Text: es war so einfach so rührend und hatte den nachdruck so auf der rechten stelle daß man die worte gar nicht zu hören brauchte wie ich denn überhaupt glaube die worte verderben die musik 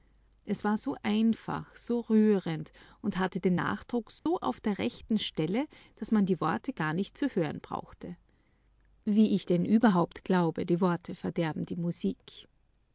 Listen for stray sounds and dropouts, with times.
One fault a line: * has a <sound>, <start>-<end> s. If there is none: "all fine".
* has a dropout, 4.2-4.3 s